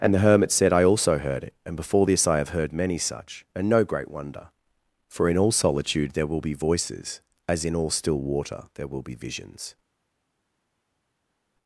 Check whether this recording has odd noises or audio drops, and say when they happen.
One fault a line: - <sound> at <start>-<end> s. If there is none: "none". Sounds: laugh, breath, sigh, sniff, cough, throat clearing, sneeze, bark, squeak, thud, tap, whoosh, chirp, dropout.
none